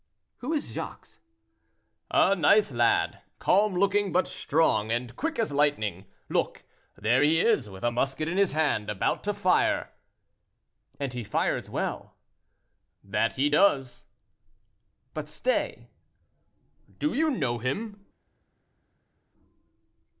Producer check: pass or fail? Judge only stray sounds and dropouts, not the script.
pass